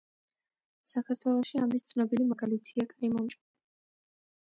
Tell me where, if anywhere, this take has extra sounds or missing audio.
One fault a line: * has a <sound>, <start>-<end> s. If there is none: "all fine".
* has a dropout, 3.4-3.5 s